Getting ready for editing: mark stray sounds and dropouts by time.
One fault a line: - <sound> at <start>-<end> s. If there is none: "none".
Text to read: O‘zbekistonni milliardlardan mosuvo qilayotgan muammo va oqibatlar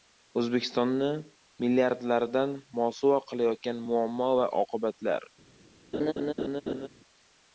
- laugh at 5.9-6.9 s